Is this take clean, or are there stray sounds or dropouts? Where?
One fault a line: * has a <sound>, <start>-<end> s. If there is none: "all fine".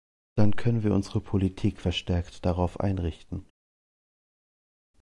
all fine